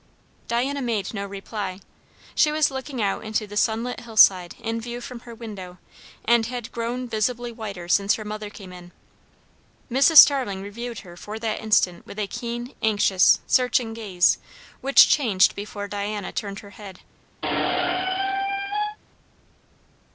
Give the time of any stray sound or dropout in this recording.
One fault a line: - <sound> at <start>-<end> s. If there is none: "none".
- squeak at 17.4-19.0 s